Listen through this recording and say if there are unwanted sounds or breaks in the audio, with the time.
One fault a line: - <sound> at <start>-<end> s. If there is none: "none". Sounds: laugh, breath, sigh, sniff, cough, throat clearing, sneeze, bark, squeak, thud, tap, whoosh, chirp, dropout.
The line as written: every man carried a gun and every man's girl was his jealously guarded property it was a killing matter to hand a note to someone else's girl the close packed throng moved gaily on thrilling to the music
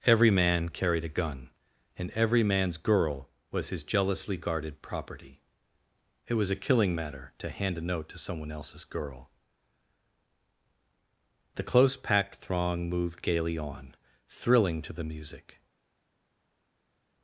none